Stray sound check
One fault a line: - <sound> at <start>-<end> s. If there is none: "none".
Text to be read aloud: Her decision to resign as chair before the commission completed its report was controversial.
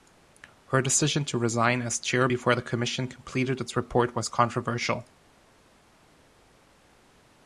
none